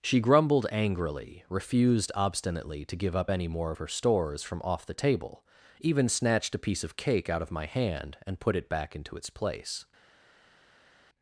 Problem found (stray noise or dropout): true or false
false